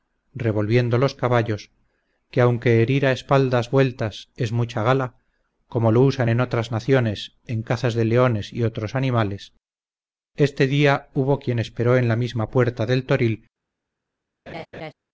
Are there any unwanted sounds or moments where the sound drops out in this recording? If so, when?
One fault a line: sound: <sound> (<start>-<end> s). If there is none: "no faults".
sound: laugh (14.5-14.9 s)